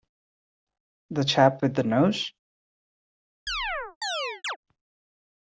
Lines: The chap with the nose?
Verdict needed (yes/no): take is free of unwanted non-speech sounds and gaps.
no